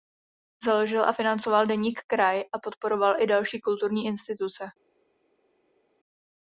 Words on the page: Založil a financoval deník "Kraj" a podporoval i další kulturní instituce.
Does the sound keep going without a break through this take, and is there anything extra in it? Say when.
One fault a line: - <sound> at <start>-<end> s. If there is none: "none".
none